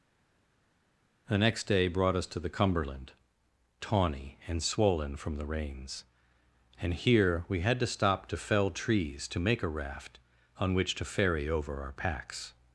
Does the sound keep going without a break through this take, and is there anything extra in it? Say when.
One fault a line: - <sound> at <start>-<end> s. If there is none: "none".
none